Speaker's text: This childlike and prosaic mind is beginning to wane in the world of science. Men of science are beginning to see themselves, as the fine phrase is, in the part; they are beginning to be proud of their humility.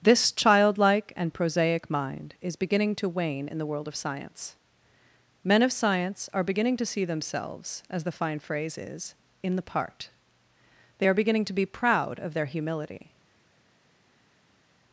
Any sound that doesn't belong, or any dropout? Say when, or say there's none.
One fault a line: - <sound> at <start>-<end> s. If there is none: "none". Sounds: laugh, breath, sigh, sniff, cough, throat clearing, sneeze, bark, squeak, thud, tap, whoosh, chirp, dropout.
none